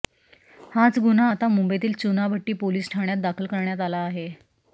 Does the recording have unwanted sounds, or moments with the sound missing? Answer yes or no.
no